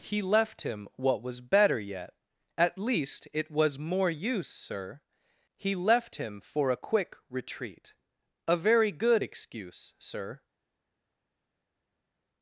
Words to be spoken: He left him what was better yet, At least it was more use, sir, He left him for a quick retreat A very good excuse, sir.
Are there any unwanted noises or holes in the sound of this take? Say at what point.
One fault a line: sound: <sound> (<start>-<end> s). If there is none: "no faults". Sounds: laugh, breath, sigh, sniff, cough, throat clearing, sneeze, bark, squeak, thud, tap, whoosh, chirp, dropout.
no faults